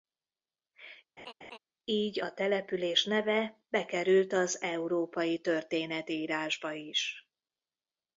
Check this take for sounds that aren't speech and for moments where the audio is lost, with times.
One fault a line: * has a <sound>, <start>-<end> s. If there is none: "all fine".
* has a laugh, 1.2-1.6 s